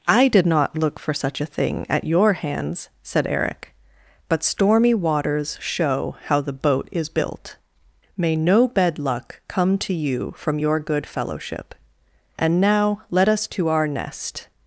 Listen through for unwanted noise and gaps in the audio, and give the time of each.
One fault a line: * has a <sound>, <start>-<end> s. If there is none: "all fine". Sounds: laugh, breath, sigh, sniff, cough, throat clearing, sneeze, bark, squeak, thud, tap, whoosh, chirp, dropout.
all fine